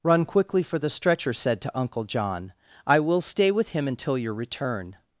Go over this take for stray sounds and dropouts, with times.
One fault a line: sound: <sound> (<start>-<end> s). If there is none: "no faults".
no faults